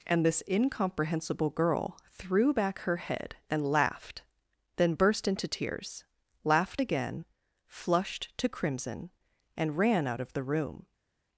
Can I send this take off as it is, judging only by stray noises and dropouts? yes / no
yes